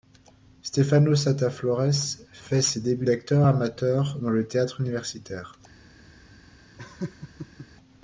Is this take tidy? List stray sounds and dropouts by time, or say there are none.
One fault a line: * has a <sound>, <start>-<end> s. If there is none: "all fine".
* has a laugh, 6.8-7.7 s